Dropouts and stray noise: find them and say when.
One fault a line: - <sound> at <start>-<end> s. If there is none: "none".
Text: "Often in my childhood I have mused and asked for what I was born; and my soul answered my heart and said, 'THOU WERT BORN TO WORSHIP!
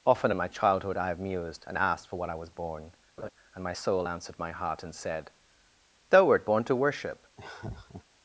- laugh at 3.2-3.3 s
- laugh at 7.4-8.0 s